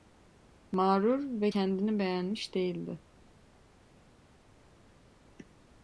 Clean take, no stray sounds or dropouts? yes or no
yes